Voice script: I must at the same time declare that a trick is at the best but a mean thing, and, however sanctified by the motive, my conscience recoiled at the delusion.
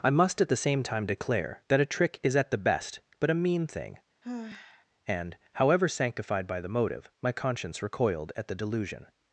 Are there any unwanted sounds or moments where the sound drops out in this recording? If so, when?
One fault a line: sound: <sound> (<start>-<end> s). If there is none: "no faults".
sound: sigh (4.2-4.9 s)